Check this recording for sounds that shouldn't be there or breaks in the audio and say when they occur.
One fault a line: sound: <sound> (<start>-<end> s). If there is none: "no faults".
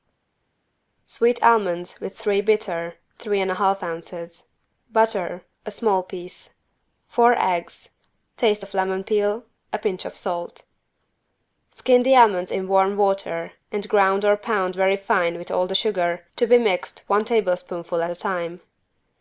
no faults